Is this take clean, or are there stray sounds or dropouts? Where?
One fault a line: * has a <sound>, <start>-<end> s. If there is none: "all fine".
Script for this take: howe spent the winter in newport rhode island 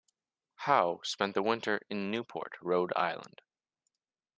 all fine